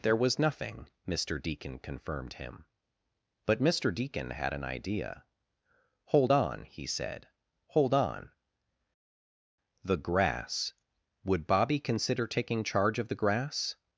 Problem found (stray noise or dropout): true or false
false